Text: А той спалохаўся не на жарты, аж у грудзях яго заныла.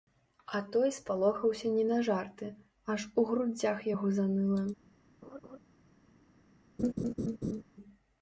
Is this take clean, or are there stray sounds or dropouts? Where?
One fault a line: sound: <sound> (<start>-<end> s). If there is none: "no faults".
sound: laugh (5.2-5.6 s)
sound: laugh (6.8-7.6 s)